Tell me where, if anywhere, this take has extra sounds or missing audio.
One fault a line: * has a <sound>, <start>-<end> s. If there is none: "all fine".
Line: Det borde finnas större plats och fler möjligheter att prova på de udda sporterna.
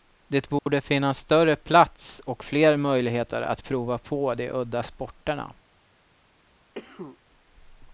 * has a dropout, 0.6-0.7 s
* has a cough, 6.7-7.2 s